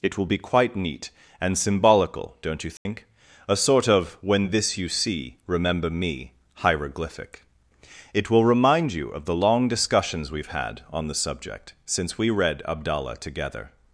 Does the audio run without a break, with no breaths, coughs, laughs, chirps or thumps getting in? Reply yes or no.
no